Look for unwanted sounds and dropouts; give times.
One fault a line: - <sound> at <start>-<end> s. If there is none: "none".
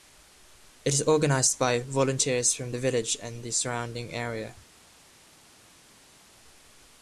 none